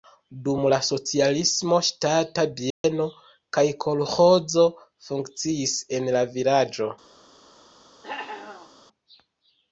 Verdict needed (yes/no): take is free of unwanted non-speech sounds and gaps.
no